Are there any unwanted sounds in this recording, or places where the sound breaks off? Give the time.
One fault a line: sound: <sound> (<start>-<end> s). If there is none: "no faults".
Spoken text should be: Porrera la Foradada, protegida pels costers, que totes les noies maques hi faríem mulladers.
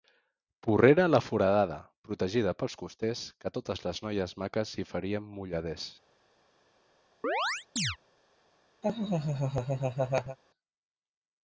sound: chirp (7.2-8.0 s)
sound: laugh (8.8-10.4 s)